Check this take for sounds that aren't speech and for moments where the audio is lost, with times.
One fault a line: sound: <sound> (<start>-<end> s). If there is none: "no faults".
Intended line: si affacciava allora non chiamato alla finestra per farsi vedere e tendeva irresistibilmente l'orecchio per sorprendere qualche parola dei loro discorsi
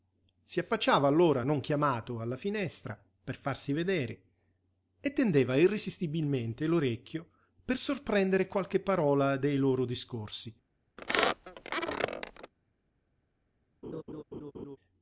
sound: squeak (11.0-12.5 s)
sound: laugh (13.8-14.8 s)